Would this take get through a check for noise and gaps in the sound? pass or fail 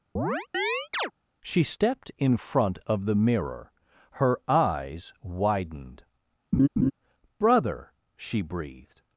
fail